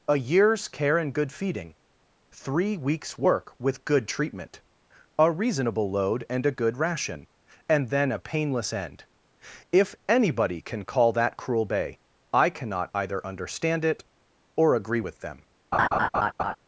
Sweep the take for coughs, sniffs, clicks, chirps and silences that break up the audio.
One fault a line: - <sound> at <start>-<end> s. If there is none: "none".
- laugh at 15.7-16.6 s